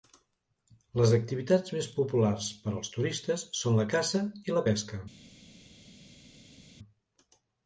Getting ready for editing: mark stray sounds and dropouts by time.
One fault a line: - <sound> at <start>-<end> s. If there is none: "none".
none